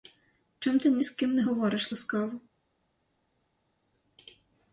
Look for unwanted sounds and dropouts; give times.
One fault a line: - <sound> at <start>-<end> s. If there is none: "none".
none